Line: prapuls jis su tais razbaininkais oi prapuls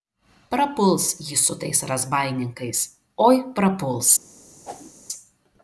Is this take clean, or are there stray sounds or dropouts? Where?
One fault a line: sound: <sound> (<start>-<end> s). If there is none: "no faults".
sound: whoosh (4.6-4.9 s)